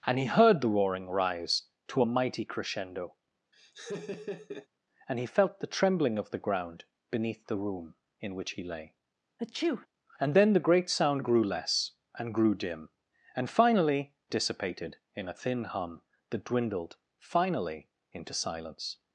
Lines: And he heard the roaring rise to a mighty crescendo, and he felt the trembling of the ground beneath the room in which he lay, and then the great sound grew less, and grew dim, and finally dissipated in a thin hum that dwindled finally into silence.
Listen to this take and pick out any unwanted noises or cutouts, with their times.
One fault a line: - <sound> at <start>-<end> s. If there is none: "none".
- laugh at 3.5-4.7 s
- sneeze at 9.4-9.9 s